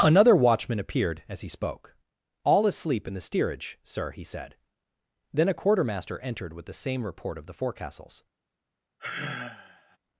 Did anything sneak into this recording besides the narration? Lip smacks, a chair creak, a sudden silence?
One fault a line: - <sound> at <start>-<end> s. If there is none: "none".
- sigh at 9.0-10.0 s